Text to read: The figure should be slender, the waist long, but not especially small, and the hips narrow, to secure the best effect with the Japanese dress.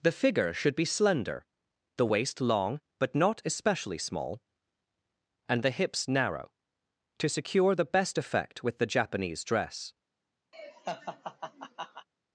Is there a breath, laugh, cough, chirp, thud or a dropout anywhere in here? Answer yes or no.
yes